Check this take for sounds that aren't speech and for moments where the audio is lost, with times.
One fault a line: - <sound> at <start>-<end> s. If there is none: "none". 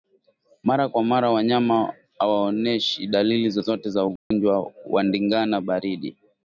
- dropout at 4.2-4.3 s